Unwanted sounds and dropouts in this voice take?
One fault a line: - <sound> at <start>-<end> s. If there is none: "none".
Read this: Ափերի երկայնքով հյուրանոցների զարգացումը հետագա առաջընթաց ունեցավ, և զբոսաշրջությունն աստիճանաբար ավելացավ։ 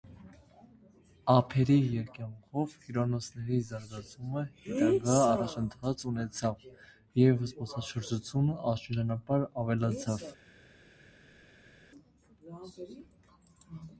none